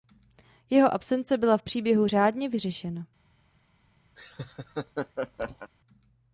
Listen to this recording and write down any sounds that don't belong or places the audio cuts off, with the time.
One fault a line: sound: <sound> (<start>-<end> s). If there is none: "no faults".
sound: laugh (4.2-5.7 s)